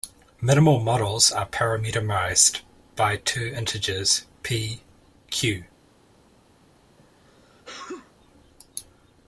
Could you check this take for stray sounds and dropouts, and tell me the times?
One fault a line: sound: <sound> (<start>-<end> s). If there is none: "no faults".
sound: sneeze (7.0-8.1 s)